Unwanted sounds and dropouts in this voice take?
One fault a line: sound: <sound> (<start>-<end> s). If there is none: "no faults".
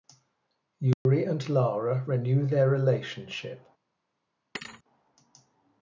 sound: dropout (0.9-1.1 s)
sound: thud (4.5-4.8 s)